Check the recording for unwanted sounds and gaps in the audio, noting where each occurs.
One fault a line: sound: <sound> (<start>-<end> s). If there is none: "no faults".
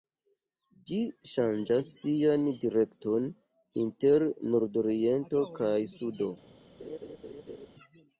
sound: laugh (6.8-7.7 s)